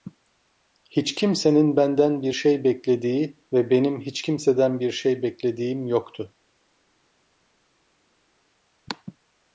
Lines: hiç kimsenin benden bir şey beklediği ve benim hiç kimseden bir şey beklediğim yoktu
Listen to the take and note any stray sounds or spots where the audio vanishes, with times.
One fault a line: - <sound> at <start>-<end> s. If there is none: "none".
none